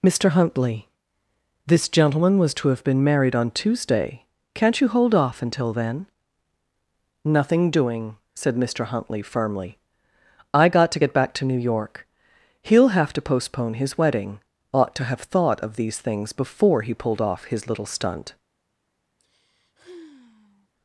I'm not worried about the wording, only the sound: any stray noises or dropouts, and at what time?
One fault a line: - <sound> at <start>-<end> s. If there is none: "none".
- sigh at 19.2-20.7 s